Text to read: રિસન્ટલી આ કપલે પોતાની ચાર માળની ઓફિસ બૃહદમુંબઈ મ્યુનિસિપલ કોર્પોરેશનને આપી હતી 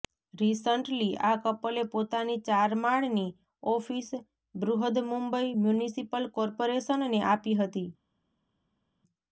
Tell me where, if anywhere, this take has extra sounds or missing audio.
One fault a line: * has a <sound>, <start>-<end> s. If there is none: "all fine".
all fine